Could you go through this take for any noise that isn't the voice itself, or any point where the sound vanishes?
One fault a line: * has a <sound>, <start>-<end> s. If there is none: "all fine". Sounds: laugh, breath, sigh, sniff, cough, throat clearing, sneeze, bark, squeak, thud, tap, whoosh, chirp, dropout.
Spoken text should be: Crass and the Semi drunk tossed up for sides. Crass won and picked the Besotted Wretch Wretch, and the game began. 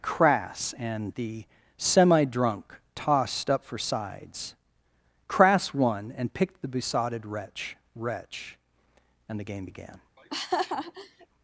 * has a laugh, 10.2-11.3 s